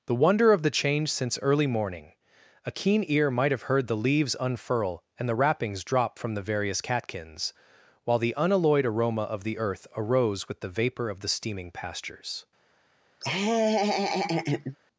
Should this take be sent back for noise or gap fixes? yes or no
yes